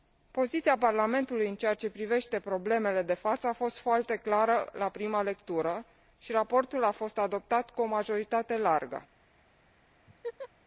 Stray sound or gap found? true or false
true